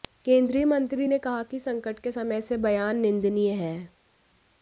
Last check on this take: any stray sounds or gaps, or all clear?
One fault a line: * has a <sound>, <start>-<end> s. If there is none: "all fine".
all fine